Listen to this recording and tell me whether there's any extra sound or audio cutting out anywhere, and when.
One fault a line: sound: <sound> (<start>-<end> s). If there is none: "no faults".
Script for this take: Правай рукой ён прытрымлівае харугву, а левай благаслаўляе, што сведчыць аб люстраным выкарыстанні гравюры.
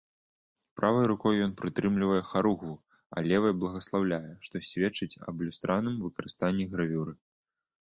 no faults